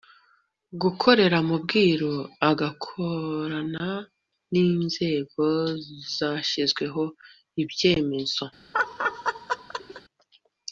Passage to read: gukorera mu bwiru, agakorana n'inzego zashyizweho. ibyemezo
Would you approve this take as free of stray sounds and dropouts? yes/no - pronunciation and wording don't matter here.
no